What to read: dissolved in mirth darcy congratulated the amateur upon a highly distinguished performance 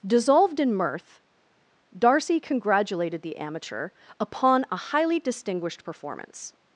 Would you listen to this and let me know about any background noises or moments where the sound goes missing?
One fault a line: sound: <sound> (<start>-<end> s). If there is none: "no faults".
no faults